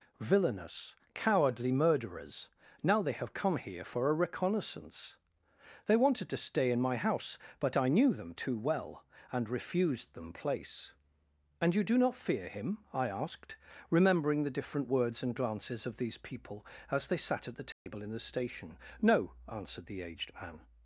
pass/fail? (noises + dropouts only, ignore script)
fail